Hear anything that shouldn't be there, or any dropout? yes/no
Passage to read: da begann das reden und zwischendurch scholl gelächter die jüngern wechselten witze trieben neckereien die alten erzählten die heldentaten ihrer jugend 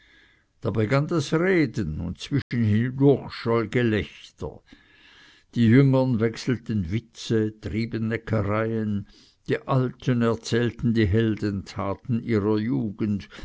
yes